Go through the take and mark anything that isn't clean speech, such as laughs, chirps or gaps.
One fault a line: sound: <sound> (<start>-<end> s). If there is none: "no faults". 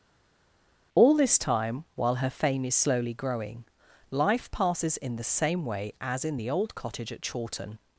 no faults